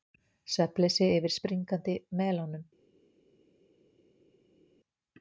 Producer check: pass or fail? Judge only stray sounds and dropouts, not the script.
pass